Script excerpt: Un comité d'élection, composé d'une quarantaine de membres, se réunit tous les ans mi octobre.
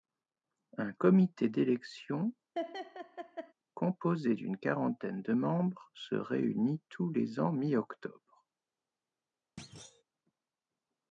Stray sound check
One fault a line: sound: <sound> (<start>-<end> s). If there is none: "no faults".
sound: laugh (2.6-3.5 s)
sound: thud (9.6-10.0 s)